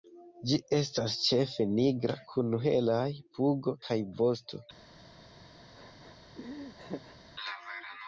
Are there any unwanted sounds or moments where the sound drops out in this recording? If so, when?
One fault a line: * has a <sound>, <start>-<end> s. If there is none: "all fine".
* has a laugh, 5.7-7.2 s